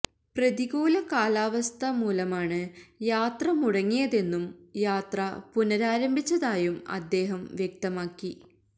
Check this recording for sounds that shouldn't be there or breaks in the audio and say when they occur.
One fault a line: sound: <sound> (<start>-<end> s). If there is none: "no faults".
no faults